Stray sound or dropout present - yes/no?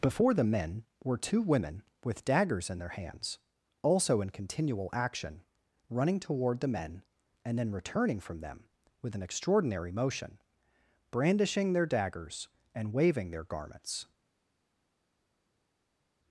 no